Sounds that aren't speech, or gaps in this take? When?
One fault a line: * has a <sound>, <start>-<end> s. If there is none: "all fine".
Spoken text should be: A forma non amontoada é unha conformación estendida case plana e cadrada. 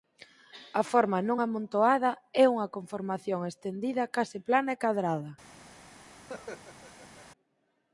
* has a laugh, 6.2-7.3 s